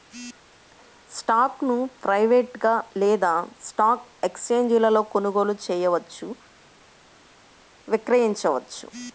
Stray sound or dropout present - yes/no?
no